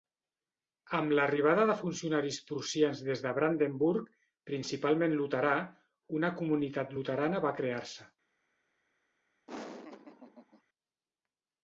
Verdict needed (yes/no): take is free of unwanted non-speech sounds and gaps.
no